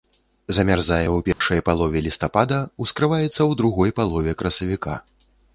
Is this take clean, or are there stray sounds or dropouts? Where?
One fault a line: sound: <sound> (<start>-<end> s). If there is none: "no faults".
sound: dropout (1.3-1.4 s)